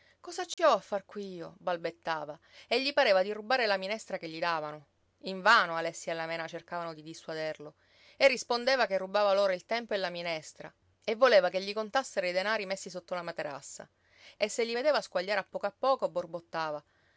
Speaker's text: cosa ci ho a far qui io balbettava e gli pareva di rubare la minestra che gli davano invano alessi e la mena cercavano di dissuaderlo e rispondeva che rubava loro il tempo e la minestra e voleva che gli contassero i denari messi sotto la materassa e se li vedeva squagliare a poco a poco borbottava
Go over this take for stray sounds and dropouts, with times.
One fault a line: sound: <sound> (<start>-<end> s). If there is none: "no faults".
sound: dropout (0.5-0.6 s)